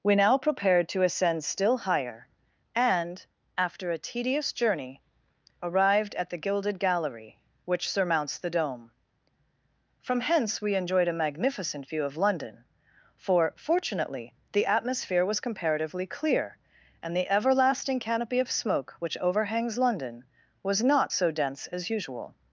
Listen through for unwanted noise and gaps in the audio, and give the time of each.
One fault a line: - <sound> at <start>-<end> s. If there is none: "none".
none